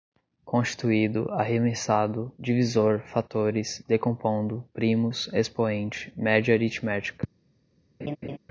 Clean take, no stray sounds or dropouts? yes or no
no